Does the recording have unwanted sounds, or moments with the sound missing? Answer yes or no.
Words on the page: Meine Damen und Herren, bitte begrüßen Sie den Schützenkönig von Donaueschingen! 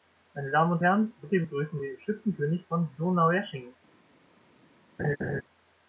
yes